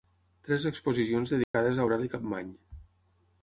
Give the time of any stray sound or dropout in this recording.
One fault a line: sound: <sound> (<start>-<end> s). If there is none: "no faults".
sound: dropout (1.4-1.5 s)